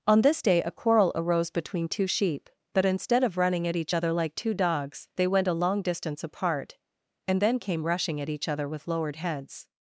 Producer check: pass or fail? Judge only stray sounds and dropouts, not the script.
pass